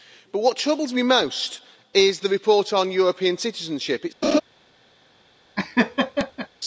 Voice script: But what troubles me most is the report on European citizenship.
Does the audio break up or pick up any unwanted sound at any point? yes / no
yes